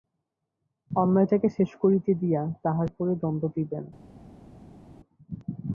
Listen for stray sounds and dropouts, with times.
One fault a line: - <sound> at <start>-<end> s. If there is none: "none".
none